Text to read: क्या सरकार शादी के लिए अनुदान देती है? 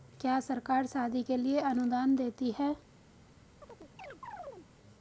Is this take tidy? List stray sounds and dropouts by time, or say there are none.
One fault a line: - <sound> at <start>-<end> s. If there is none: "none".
- chirp at 3.6-4.7 s